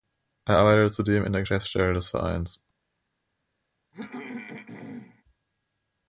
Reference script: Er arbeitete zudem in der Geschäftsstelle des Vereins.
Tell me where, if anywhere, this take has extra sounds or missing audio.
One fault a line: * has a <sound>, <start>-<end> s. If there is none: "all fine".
* has a throat clearing, 3.9-5.2 s